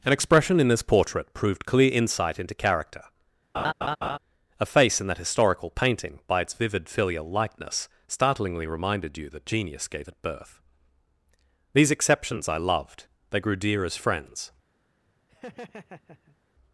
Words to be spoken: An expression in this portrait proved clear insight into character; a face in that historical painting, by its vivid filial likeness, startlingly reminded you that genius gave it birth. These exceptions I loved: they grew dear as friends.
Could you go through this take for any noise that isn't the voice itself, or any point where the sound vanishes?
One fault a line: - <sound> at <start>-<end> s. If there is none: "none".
- laugh at 3.5-4.2 s
- laugh at 15.3-16.4 s